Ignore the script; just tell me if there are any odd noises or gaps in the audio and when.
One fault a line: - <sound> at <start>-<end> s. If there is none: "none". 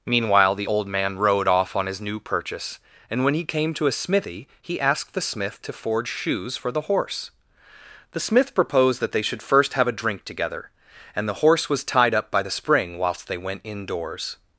none